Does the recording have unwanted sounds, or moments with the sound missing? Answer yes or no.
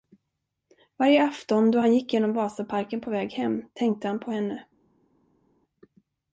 no